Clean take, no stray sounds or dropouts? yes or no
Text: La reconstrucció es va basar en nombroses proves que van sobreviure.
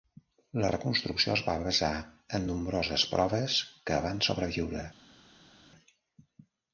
yes